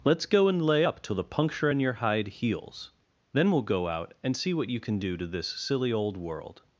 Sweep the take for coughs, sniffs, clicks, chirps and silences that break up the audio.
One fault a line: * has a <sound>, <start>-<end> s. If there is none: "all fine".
all fine